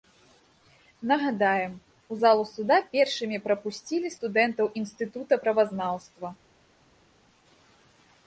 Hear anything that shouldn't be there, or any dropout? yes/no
no